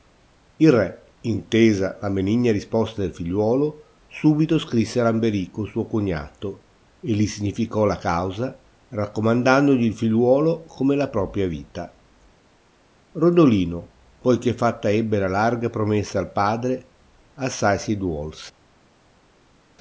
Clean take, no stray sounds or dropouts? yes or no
yes